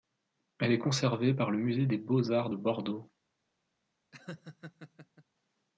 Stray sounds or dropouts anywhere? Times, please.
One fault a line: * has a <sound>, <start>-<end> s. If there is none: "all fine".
* has a laugh, 4.1-5.2 s